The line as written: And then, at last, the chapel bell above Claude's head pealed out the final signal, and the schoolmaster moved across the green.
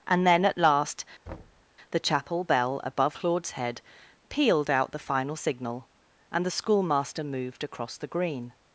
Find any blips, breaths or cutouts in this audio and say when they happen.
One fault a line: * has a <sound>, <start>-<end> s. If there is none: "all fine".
* has a thud, 1.3-1.6 s